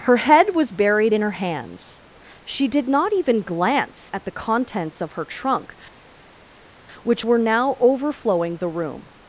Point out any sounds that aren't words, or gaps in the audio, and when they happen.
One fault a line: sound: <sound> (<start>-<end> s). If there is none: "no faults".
no faults